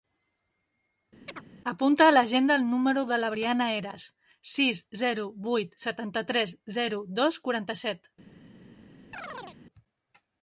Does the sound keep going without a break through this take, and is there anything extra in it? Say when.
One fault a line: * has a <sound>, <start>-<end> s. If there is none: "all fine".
* has a chirp, 1.3-1.4 s
* has a chirp, 9.1-9.6 s